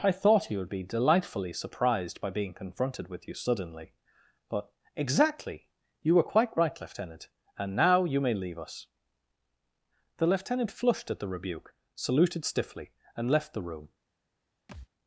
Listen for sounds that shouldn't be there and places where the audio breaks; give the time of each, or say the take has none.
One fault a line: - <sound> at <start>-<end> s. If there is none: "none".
- thud at 14.7-14.9 s